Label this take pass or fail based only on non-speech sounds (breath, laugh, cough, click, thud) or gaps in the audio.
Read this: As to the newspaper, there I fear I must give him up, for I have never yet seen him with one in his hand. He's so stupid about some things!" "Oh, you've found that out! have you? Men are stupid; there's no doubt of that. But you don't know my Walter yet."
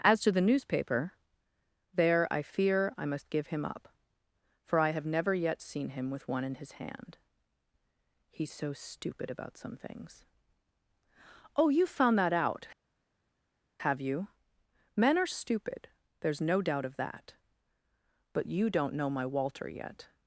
pass